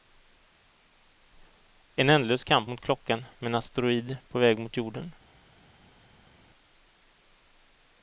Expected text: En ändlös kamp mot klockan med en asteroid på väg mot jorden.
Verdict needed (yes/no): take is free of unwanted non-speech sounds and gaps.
yes